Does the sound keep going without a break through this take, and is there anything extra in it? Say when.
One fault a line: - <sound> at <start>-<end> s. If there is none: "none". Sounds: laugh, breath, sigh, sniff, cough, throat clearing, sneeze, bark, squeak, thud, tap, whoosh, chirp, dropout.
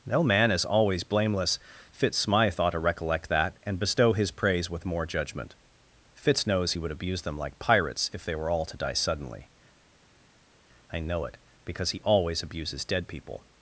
none